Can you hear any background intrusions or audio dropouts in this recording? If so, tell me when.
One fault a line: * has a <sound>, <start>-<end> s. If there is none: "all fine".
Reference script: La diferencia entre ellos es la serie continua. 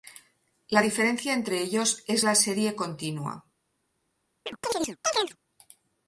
* has a chirp, 4.5-5.4 s